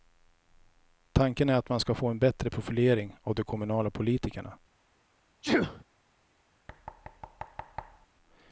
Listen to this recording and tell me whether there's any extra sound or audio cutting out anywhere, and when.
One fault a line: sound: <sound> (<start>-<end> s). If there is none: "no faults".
sound: sneeze (5.4-5.8 s)
sound: thud (6.7-8.1 s)